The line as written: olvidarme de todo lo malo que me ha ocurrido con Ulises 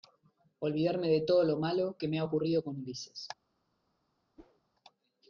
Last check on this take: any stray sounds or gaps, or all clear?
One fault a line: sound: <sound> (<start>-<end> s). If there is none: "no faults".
sound: whoosh (4.4-4.6 s)